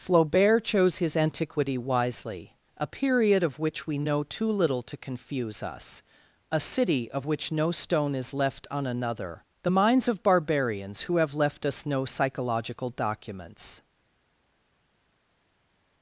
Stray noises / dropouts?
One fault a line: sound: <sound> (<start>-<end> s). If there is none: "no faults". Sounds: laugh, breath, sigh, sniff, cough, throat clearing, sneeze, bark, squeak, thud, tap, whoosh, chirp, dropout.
no faults